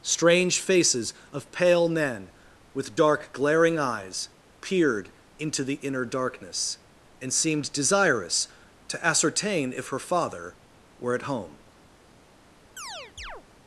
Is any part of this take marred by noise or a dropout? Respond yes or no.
yes